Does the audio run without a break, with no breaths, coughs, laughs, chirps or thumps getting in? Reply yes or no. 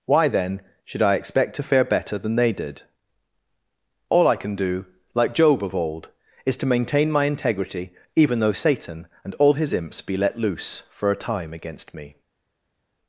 yes